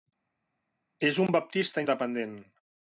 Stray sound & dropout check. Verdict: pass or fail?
pass